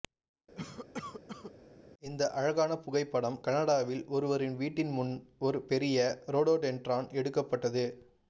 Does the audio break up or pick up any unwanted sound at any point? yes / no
yes